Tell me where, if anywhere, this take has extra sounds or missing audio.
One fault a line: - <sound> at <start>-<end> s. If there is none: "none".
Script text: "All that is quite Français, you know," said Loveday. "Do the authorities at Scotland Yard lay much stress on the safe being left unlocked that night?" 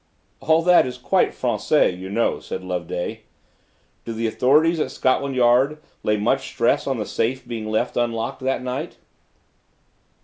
none